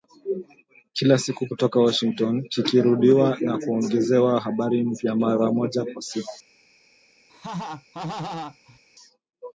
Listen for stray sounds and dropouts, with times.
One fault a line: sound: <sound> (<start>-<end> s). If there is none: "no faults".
sound: laugh (7.3-8.8 s)